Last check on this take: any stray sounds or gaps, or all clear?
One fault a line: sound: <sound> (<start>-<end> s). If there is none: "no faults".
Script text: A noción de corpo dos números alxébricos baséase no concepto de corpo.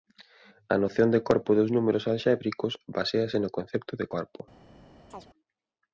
sound: chirp (5.1-5.3 s)